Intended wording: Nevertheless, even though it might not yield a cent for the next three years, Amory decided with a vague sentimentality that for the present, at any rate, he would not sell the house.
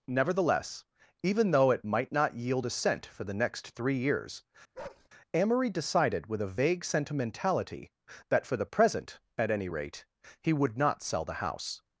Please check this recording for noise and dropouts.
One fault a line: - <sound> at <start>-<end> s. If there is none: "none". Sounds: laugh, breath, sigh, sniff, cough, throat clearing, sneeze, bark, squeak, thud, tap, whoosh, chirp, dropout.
- bark at 4.7-5.1 s